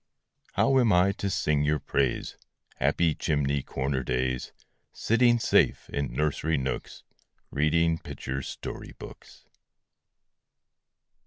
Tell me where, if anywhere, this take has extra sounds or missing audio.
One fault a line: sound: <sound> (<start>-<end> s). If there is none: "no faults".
no faults